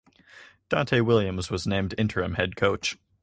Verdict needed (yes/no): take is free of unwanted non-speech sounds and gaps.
yes